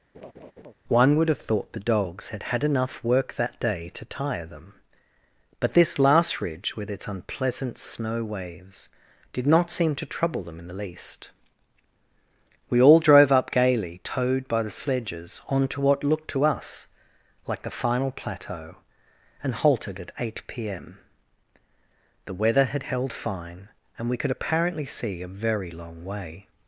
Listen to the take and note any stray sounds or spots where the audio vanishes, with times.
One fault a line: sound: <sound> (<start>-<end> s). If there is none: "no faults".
sound: laugh (0.1-0.7 s)